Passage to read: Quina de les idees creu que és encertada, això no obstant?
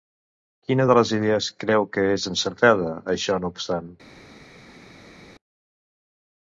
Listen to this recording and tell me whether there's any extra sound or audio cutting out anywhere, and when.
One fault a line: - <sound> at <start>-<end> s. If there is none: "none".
none